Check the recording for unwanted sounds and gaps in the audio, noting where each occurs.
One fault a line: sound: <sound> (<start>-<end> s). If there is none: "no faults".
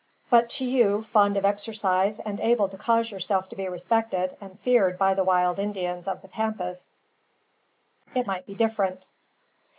no faults